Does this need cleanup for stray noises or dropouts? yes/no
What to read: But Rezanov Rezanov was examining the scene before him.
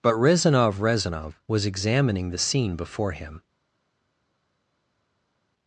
no